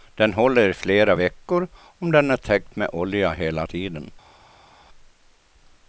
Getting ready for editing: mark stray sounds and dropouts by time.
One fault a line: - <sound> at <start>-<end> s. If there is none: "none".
none